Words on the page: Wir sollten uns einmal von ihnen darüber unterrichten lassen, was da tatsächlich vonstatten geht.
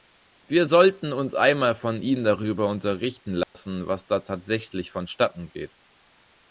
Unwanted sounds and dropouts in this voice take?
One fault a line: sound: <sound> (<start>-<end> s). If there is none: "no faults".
sound: dropout (3.4-3.5 s)